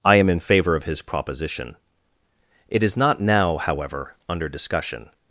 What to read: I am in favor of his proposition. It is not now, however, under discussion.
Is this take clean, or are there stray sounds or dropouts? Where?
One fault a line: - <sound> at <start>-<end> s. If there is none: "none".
none